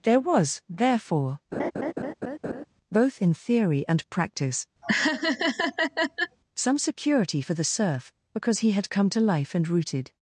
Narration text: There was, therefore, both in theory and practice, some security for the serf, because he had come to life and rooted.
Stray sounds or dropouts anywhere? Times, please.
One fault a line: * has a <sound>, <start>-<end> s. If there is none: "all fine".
* has a laugh, 1.5-2.7 s
* has a laugh, 4.8-6.4 s